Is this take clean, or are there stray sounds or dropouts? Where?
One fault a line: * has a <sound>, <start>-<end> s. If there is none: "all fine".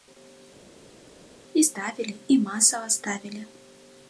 all fine